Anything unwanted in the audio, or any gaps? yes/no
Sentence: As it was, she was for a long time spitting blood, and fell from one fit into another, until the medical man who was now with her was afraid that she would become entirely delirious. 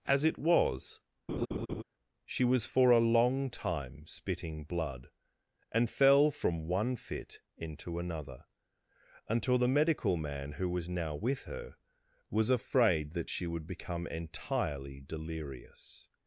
yes